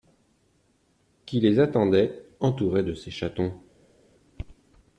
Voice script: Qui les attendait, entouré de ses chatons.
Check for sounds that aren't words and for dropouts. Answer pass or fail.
pass